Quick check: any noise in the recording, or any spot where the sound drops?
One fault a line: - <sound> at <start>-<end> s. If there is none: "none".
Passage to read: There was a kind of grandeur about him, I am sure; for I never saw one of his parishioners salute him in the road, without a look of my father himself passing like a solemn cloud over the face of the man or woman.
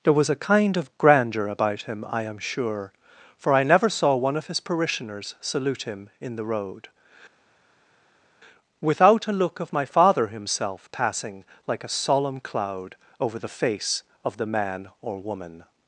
none